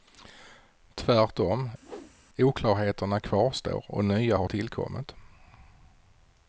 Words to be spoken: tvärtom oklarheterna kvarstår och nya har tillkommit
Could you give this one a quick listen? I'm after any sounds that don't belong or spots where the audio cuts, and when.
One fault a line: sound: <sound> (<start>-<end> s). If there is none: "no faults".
sound: whoosh (1.8-2.2 s)